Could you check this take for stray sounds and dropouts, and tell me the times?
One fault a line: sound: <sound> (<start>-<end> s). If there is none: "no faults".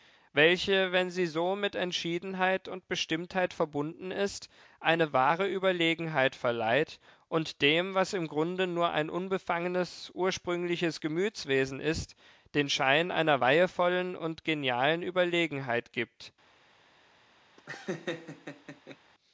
sound: laugh (17.6-19.0 s)